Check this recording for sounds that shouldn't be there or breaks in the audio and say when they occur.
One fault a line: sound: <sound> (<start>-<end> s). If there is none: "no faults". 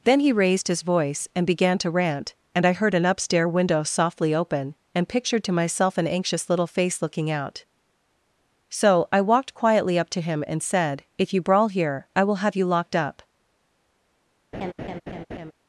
sound: laugh (14.5-15.5 s)